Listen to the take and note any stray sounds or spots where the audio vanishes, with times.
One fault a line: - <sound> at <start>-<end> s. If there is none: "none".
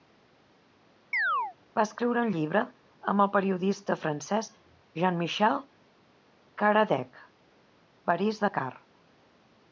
- chirp at 1.1-1.6 s